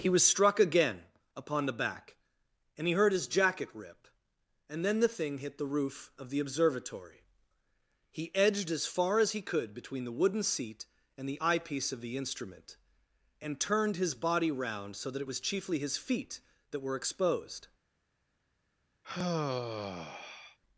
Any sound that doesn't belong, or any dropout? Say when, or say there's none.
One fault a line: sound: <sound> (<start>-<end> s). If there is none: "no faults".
sound: sigh (19.0-20.6 s)